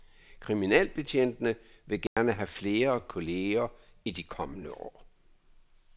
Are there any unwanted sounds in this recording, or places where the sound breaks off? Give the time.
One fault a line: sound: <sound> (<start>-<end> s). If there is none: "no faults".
sound: dropout (2.1-2.2 s)